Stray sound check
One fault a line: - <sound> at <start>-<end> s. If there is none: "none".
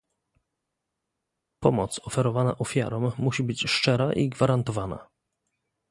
none